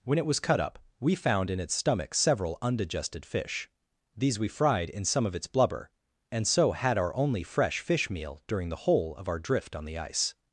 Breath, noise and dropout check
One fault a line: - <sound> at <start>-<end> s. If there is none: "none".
none